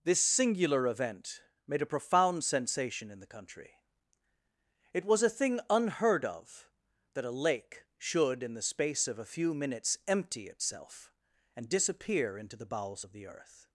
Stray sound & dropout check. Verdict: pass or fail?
pass